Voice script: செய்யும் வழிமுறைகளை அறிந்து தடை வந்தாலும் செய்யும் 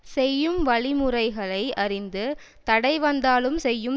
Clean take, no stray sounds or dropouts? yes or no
yes